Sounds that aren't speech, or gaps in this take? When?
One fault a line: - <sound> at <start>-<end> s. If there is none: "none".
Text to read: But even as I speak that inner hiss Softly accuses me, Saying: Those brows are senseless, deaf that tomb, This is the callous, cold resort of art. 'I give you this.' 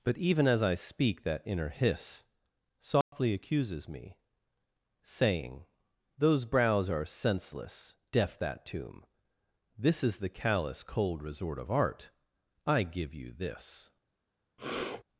- dropout at 3.0-3.1 s
- sniff at 14.6-15.0 s